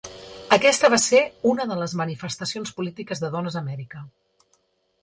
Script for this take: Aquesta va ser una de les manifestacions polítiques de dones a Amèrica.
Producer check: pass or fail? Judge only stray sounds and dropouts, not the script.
pass